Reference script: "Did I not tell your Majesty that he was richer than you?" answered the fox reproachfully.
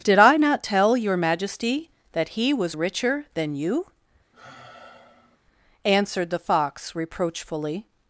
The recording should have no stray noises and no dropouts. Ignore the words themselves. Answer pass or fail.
fail